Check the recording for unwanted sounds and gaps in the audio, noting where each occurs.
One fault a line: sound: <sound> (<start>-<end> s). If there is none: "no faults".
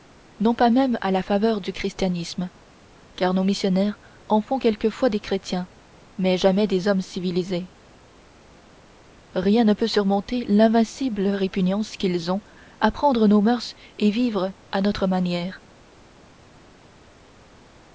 no faults